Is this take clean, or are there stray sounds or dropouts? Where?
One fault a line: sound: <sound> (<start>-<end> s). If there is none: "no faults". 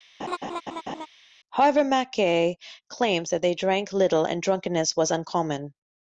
sound: laugh (0.2-1.1 s)